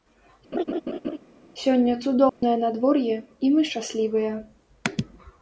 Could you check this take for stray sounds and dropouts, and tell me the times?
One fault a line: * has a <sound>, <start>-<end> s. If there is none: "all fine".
* has a laugh, 0.5-1.2 s
* has a dropout, 2.3-2.4 s